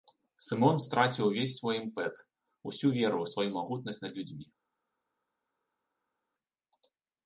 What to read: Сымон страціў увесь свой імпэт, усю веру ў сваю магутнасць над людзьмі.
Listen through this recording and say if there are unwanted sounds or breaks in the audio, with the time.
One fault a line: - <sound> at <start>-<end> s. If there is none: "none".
none